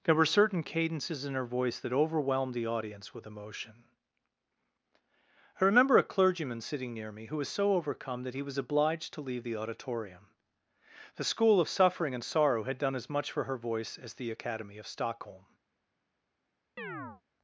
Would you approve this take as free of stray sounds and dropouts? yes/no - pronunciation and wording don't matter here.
no